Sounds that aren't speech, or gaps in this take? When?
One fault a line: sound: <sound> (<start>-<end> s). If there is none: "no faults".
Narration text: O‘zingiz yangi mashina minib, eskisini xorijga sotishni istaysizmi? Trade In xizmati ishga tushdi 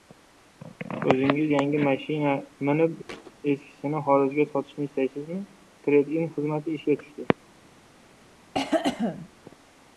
sound: thud (3.1-3.3 s)
sound: cough (8.5-9.3 s)